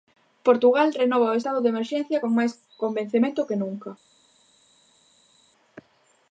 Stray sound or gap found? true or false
false